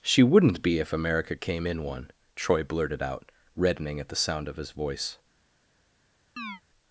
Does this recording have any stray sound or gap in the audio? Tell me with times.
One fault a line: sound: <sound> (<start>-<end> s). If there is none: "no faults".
sound: chirp (6.4-6.6 s)